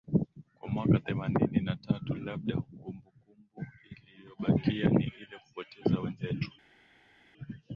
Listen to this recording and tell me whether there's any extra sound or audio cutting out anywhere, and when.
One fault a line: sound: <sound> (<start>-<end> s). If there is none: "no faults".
no faults